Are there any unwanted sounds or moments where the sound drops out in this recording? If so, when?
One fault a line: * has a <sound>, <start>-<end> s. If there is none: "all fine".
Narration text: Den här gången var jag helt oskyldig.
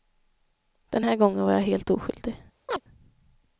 * has a chirp, 2.7-2.8 s